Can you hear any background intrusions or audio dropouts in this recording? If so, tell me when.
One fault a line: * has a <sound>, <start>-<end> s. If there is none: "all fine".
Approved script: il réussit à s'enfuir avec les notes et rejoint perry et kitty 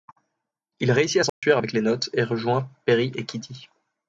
* has a dropout, 1.3-1.4 s